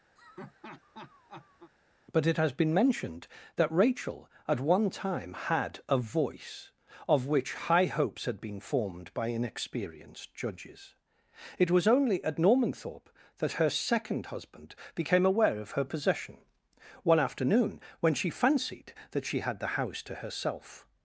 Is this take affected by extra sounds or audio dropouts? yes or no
yes